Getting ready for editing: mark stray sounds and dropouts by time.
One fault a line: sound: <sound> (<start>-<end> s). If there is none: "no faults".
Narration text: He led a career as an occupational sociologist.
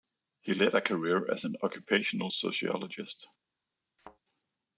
sound: thud (4.0-4.2 s)